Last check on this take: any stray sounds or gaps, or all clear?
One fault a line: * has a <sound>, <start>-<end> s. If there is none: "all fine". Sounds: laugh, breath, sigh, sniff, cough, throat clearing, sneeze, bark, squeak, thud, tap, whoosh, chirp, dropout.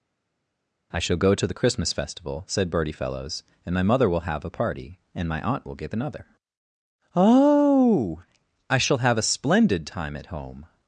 all fine